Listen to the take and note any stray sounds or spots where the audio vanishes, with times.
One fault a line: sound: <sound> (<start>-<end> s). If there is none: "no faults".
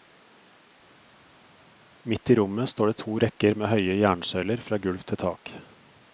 no faults